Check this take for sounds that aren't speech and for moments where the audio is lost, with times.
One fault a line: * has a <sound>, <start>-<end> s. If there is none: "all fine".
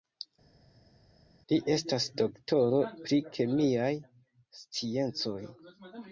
all fine